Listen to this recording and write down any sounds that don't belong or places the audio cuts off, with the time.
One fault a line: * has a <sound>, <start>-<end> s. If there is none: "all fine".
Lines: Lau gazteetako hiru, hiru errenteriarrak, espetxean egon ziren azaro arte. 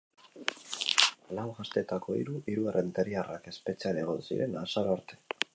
all fine